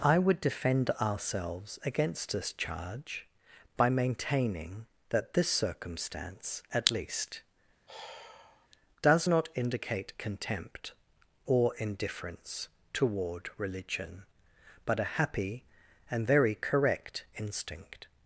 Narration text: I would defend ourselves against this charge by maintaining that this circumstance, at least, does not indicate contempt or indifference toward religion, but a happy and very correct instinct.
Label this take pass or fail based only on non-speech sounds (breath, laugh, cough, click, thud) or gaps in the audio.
fail